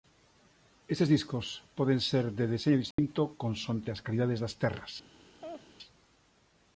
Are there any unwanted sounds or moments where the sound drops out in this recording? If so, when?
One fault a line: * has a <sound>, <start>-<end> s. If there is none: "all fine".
* has a dropout, 2.9-3.0 s
* has a laugh, 5.4-5.7 s